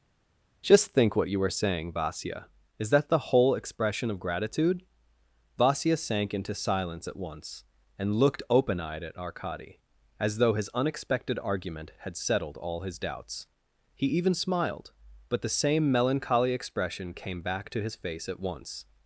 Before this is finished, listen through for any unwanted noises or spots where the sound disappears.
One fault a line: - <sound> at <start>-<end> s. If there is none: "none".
none